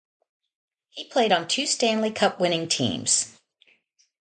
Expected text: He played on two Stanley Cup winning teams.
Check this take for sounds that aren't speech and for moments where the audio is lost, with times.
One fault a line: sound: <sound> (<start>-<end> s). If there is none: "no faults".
no faults